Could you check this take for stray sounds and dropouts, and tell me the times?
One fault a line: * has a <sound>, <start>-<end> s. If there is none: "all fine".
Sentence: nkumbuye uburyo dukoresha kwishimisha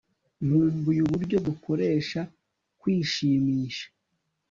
all fine